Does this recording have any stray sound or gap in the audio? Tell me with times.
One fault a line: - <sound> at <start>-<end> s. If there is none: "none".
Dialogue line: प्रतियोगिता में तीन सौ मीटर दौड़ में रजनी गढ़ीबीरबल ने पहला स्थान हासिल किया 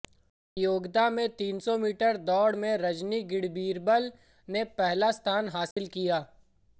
- dropout at 5.7-5.8 s